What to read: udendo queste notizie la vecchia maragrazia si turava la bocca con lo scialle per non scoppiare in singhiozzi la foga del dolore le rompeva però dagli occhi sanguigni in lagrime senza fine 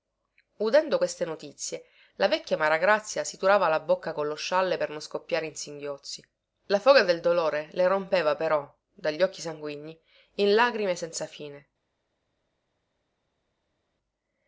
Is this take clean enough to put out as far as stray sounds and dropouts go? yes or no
yes